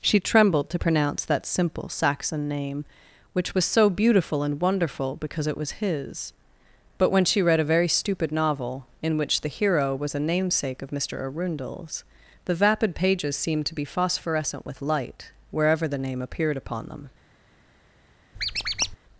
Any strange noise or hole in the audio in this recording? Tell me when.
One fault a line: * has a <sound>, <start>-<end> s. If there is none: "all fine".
* has a squeak, 18.4-19.0 s